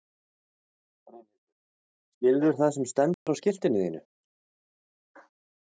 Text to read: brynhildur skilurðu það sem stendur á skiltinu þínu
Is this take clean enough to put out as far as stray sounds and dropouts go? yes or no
no